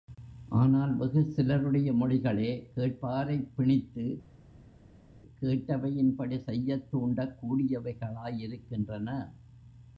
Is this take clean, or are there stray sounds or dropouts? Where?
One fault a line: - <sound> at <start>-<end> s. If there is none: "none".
none